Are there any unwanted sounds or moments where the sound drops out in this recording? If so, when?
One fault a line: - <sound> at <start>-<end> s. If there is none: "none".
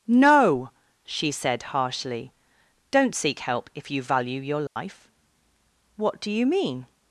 - dropout at 4.7-4.8 s